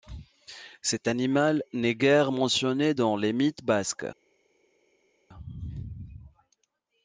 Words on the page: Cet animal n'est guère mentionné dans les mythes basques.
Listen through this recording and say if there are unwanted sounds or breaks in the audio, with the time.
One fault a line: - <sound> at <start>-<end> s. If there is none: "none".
none